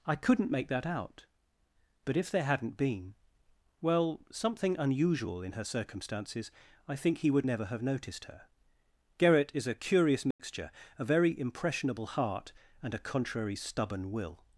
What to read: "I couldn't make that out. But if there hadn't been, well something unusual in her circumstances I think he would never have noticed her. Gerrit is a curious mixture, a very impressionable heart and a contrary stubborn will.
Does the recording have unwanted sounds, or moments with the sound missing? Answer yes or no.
yes